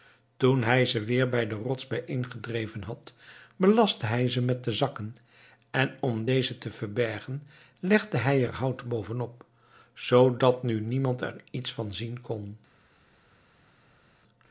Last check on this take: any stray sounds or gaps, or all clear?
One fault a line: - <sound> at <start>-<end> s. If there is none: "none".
none